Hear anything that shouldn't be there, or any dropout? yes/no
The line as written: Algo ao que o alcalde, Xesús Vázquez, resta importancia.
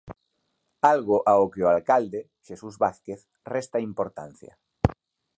no